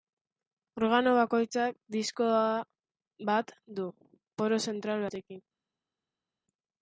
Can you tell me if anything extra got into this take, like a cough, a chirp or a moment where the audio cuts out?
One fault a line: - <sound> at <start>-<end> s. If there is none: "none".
none